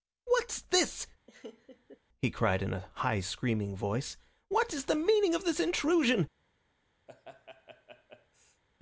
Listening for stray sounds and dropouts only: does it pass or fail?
fail